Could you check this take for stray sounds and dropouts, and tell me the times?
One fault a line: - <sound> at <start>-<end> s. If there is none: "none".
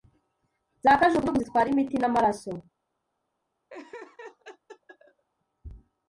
- laugh at 3.7-5.2 s